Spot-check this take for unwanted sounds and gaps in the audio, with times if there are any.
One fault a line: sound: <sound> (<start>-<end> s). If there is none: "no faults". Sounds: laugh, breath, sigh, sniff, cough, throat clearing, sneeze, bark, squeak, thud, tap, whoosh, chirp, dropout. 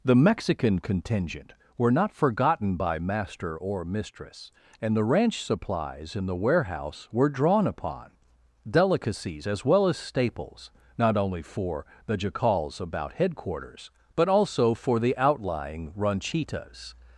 no faults